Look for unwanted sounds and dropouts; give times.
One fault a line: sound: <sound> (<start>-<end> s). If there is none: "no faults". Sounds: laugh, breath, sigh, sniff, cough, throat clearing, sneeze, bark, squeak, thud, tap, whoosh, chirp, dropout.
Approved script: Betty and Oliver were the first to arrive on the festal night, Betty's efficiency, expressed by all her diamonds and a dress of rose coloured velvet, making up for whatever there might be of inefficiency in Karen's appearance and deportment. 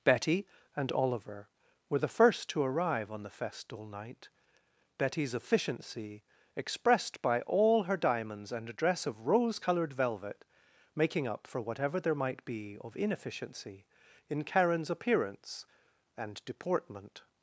no faults